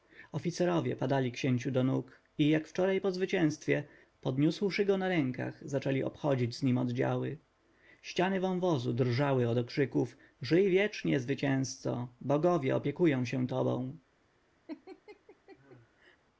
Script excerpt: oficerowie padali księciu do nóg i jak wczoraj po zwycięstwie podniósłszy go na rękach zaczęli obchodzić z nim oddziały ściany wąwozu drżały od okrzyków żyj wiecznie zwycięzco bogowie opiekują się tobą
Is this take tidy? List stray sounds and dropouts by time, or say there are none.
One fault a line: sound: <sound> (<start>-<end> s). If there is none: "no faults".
sound: laugh (14.7-16.2 s)